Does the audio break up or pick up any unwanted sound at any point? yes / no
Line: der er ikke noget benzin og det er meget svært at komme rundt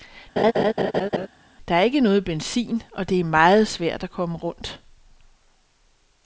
yes